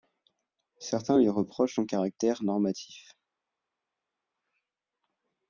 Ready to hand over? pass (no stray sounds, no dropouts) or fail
pass